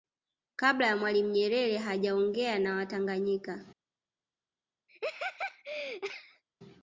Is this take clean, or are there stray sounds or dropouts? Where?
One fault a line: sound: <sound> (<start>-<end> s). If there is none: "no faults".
sound: laugh (4.9-6.4 s)